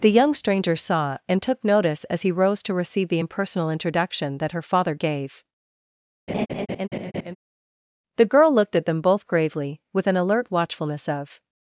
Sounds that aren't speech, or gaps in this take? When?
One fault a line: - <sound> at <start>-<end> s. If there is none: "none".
- laugh at 6.3-7.4 s